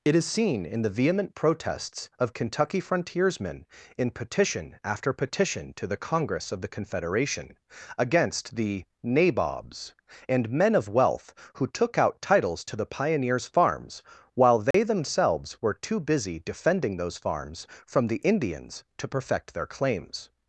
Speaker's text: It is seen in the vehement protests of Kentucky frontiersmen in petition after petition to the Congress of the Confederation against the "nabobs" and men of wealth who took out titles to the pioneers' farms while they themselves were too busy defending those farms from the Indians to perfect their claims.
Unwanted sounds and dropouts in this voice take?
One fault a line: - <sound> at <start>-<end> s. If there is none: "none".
- dropout at 14.7-14.7 s